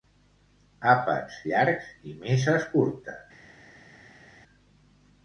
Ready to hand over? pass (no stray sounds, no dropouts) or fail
pass